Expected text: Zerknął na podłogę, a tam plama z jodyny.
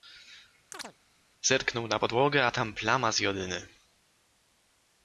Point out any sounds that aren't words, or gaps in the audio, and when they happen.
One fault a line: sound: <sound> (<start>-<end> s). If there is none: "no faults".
sound: chirp (0.7-1.0 s)